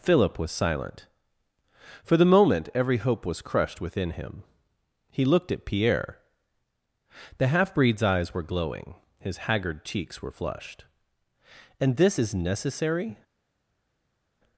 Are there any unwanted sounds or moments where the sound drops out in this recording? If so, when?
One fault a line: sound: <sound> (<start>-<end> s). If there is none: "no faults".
no faults